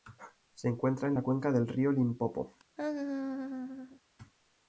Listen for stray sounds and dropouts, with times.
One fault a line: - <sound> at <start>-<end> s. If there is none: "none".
- laugh at 2.8-4.0 s